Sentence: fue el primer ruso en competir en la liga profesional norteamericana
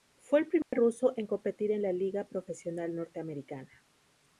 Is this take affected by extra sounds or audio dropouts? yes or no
yes